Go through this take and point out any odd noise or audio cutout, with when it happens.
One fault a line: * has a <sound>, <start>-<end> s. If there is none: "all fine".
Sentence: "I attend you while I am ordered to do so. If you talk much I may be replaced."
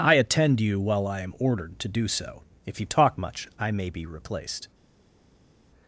all fine